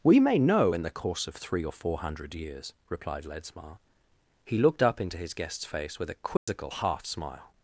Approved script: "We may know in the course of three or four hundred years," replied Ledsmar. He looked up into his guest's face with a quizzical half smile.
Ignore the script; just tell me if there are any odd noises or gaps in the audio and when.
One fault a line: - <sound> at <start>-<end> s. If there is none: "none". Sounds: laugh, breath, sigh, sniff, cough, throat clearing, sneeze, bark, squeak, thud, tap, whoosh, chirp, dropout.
- dropout at 6.4-6.5 s